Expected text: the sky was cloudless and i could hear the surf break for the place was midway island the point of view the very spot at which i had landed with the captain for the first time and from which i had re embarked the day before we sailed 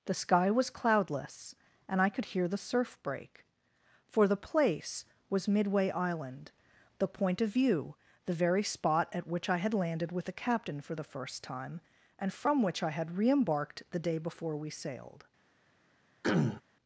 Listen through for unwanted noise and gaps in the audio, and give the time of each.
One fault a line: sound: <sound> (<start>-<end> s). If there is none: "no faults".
sound: throat clearing (16.2-16.6 s)